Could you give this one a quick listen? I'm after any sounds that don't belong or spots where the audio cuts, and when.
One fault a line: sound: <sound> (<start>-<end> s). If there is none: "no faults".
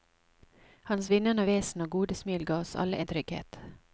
no faults